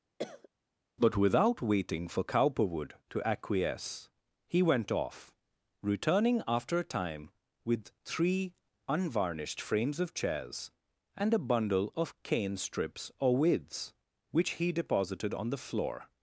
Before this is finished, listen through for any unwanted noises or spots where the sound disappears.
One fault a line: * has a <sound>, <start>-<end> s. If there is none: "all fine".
* has a cough, 0.2-0.5 s